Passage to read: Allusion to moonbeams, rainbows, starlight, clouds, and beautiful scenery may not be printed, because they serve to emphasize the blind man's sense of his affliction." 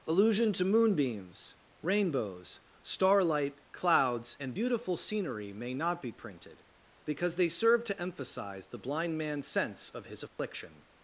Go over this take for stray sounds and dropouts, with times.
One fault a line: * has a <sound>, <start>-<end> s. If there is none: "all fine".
* has a dropout, 10.3-10.4 s